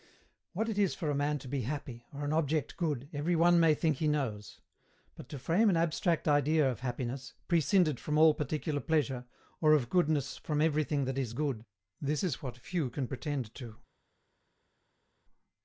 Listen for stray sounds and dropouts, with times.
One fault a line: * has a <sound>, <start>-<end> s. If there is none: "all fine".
all fine